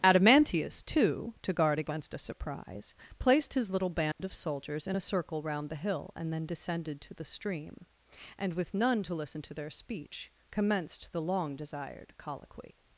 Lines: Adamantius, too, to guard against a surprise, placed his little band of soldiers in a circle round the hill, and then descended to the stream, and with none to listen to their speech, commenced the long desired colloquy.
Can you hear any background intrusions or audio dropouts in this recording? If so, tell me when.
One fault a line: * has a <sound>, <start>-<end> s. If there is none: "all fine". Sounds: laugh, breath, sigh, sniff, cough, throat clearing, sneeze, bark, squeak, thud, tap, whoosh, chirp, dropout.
* has a dropout, 4.1-4.2 s